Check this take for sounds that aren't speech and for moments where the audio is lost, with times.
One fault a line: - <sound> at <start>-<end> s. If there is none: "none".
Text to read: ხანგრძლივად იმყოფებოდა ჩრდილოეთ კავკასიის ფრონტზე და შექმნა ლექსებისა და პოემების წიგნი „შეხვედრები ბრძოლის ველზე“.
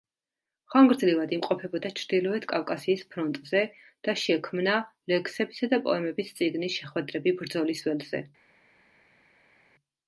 none